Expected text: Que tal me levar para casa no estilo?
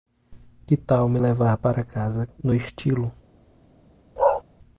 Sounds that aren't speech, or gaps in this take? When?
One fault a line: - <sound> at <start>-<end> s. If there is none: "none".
- bark at 4.2-4.4 s